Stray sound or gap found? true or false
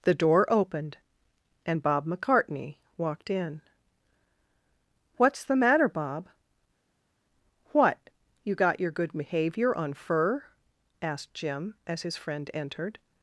false